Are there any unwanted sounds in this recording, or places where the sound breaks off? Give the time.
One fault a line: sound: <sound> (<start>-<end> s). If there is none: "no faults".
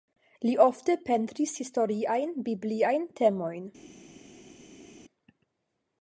no faults